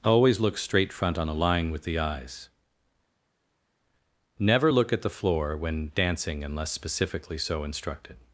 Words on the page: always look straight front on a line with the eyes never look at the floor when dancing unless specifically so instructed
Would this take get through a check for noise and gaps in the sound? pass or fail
pass